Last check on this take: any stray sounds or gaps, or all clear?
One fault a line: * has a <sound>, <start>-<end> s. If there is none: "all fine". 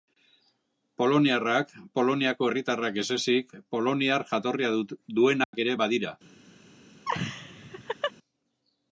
* has a dropout, 5.4-5.5 s
* has a laugh, 7.0-8.1 s